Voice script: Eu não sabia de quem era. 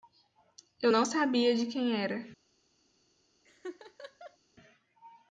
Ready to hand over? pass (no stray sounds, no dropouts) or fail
fail